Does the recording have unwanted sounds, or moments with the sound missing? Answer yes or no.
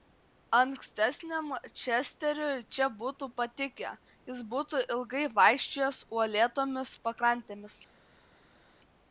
no